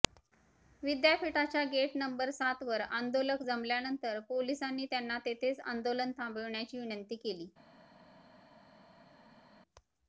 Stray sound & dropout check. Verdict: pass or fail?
pass